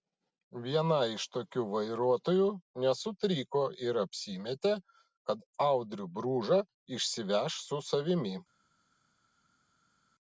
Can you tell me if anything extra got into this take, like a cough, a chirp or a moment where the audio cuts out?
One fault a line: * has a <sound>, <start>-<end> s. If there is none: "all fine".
all fine